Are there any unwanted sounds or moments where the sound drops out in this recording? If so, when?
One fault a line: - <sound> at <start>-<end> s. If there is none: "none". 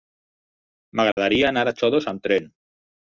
- dropout at 1.1-1.2 s